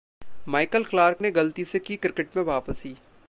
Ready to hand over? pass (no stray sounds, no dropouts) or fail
pass